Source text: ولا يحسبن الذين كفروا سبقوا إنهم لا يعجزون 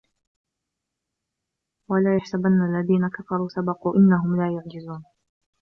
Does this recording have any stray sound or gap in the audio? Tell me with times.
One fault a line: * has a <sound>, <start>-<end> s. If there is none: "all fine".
all fine